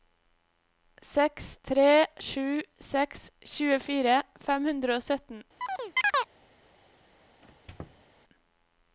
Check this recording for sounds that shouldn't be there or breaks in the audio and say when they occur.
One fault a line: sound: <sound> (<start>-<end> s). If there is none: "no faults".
sound: chirp (5.6-6.3 s)
sound: squeak (7.4-8.0 s)